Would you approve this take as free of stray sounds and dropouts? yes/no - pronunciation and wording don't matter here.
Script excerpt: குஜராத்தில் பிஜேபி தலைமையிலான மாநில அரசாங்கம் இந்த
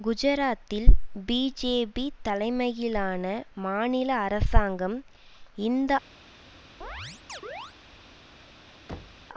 no